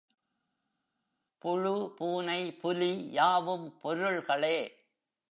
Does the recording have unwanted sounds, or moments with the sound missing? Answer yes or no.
no